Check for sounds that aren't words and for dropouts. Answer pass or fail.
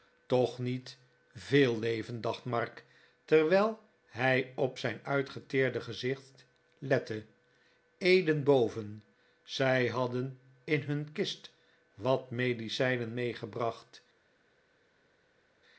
pass